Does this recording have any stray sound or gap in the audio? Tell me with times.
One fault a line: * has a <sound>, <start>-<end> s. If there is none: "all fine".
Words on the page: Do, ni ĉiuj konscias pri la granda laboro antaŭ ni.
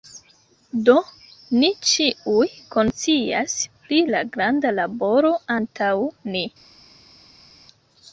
all fine